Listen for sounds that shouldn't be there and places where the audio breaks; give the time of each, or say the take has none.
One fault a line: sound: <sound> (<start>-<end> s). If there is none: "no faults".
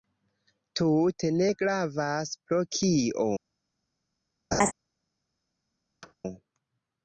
sound: laugh (4.5-4.7 s)
sound: thud (6.0-6.1 s)